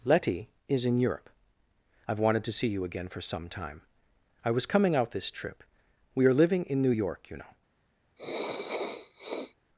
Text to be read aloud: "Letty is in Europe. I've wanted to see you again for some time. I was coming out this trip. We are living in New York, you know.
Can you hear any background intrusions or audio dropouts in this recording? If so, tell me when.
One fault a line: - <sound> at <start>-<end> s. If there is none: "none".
- sniff at 8.2-9.6 s